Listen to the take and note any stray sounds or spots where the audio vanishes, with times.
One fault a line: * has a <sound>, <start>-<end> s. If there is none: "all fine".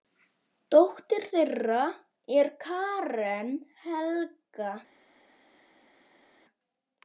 all fine